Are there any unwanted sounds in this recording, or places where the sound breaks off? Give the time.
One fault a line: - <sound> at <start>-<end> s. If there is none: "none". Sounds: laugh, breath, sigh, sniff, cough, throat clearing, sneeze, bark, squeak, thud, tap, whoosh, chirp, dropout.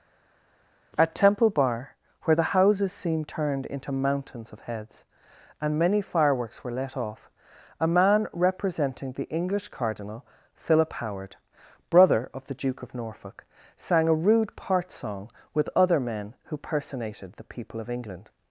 none